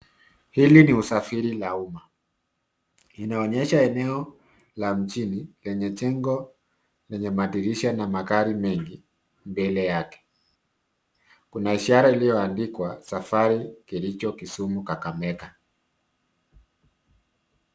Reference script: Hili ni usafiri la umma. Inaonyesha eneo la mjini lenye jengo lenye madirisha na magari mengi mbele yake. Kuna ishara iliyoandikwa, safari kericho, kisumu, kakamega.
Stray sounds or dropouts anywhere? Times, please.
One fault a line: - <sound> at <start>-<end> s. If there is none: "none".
none